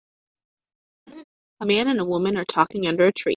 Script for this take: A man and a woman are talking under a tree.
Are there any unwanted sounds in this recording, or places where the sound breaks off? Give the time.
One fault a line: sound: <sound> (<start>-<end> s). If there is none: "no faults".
sound: laugh (1.1-1.2 s)